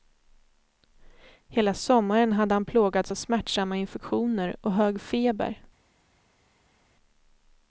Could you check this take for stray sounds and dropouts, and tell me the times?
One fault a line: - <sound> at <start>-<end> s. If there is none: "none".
none